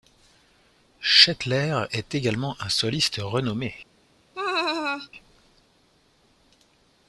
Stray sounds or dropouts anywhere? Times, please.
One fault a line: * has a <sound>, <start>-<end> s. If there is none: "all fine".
* has a laugh, 4.3-5.1 s